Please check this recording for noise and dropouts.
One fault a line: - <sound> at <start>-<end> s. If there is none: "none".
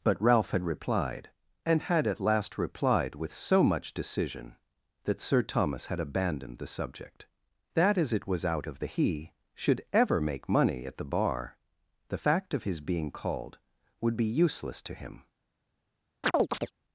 - chirp at 16.2-16.7 s